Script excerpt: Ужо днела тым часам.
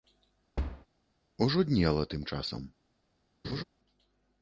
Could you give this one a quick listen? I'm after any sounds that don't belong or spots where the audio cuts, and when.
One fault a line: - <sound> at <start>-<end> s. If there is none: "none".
- thud at 0.6-0.9 s
- laugh at 3.4-3.6 s